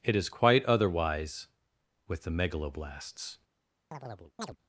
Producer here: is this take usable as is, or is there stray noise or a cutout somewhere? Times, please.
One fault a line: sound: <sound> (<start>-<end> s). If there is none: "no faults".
sound: chirp (3.9-4.6 s)